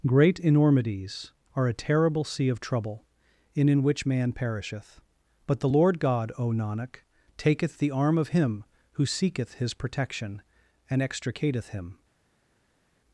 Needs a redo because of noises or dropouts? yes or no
no